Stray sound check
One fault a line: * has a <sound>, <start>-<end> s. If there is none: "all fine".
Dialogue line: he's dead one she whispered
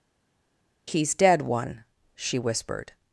all fine